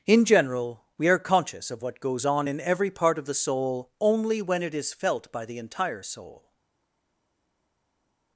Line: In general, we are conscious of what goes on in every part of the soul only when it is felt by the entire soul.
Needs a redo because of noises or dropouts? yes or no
no